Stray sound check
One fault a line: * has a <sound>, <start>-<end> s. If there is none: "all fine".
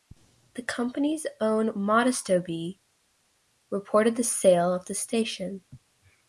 all fine